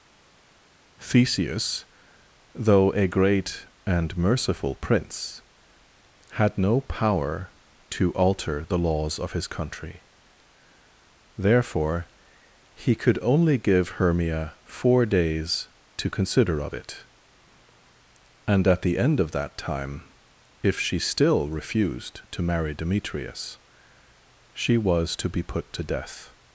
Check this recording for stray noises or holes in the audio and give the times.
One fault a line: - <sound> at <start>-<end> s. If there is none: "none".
none